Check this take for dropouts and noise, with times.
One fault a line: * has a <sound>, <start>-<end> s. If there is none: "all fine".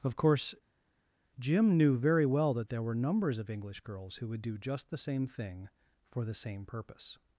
all fine